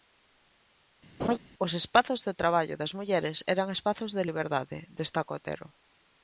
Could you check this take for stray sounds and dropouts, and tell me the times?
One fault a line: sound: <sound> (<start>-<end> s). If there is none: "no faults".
sound: laugh (1.2-1.4 s)